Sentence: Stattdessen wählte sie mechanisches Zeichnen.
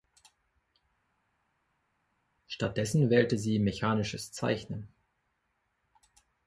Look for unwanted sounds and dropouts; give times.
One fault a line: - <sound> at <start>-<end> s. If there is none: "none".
none